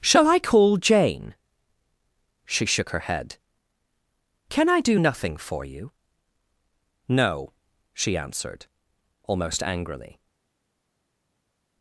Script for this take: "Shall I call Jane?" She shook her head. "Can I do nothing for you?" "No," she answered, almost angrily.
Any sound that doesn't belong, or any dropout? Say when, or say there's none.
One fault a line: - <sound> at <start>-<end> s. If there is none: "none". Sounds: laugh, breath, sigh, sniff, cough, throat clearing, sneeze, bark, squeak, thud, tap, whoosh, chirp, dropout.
none